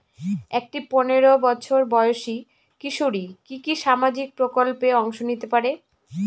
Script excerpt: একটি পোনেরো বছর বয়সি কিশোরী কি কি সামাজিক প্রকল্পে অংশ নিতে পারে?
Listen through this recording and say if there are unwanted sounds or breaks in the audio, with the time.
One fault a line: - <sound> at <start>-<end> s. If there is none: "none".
none